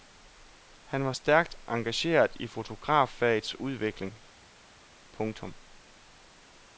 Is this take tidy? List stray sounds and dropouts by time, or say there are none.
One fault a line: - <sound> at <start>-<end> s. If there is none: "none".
none